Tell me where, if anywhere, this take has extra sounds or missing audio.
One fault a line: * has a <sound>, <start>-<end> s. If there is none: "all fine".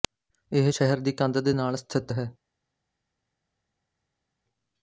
all fine